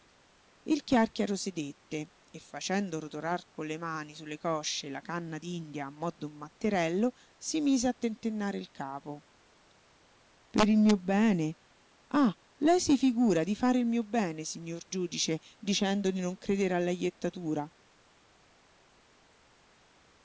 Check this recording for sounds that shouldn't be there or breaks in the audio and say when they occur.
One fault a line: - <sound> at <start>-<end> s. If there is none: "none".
none